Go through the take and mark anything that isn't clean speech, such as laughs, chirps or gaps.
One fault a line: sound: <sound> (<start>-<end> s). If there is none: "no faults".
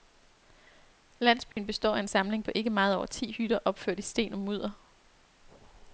sound: dropout (1.5-1.6 s)